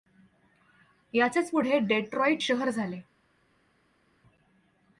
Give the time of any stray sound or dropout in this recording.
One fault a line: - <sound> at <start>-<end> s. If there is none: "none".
none